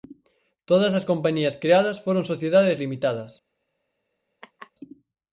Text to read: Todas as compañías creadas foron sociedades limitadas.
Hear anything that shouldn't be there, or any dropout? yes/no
yes